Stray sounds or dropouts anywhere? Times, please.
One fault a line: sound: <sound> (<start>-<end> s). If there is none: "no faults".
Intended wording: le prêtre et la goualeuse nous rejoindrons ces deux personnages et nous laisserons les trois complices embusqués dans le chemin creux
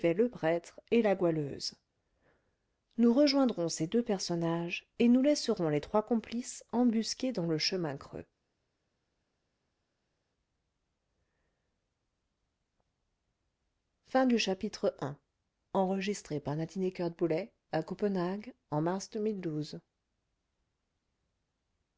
no faults